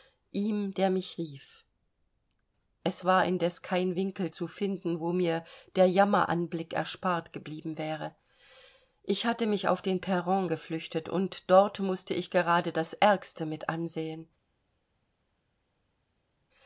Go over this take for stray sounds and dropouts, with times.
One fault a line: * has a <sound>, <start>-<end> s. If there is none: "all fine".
all fine